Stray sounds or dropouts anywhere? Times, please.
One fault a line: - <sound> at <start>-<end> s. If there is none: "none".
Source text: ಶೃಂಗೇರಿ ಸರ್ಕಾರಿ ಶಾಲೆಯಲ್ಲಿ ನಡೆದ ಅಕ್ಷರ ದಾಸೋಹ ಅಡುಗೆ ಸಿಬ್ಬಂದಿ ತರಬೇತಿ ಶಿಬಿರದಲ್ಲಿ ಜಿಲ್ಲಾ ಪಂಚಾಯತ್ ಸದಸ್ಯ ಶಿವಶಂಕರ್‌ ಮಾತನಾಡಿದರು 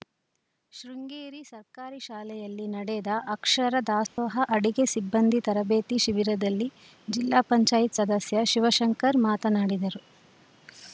- dropout at 4.1-4.2 s